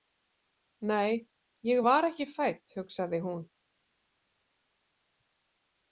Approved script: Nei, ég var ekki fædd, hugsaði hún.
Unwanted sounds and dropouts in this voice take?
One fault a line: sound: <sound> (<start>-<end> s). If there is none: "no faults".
no faults